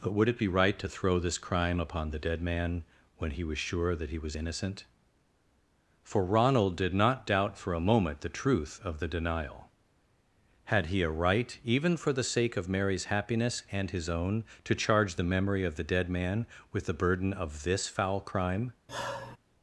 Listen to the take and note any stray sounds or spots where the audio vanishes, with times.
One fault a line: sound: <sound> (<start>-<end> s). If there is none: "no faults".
sound: sigh (18.9-19.4 s)